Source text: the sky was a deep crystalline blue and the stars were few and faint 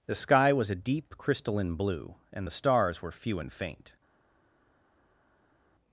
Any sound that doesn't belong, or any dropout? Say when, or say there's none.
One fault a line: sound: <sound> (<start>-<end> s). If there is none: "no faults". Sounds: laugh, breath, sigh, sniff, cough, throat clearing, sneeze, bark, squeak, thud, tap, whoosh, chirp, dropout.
no faults